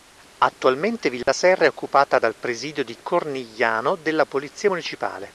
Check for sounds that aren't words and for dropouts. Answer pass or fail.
fail